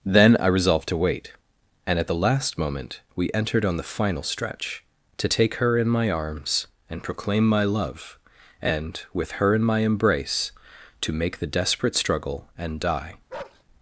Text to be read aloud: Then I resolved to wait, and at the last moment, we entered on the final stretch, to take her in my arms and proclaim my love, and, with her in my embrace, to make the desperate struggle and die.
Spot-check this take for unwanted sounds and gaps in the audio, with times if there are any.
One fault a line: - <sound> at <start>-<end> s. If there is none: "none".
- bark at 13.3-13.6 s